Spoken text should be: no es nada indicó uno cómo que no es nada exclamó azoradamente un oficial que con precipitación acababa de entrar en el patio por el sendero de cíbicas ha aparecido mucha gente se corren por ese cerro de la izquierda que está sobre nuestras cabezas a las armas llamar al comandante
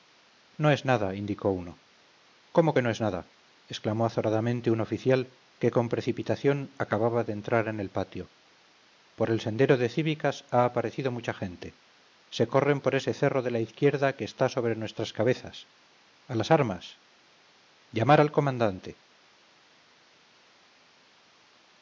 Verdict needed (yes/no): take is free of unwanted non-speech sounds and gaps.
yes